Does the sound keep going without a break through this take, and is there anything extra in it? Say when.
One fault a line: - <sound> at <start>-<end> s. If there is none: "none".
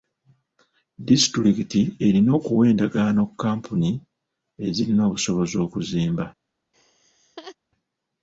- laugh at 6.7-7.6 s